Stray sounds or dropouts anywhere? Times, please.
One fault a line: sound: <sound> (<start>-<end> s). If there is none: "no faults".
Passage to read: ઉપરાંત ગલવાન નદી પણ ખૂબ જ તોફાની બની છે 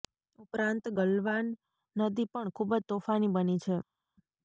no faults